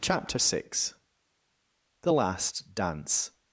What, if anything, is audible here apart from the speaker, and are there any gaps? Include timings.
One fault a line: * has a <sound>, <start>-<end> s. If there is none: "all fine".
all fine